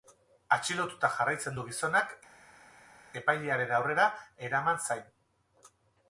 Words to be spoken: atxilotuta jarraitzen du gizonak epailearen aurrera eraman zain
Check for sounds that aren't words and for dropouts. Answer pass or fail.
pass